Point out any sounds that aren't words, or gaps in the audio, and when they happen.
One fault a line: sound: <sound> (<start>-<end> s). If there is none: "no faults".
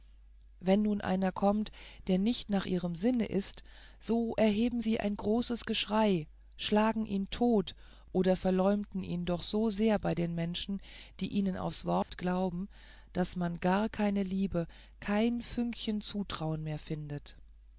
sound: dropout (12.0-12.1 s)